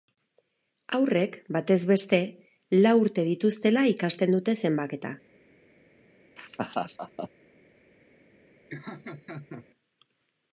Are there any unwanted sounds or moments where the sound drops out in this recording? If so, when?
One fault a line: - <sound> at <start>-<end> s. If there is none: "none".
- laugh at 6.4-7.3 s
- laugh at 8.7-9.7 s